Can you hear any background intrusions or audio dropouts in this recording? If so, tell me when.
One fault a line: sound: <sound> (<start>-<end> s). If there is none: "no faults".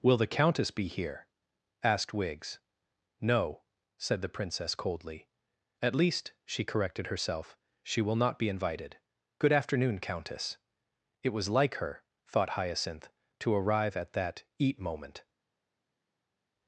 no faults